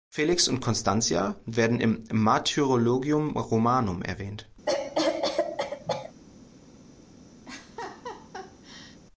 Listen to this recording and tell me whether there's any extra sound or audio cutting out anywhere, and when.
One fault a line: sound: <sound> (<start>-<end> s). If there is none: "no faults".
sound: cough (4.7-6.1 s)
sound: laugh (7.5-9.0 s)